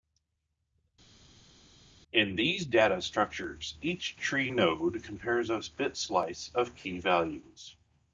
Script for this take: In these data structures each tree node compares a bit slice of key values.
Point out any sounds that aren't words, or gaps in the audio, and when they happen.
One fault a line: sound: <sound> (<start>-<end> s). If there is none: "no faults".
no faults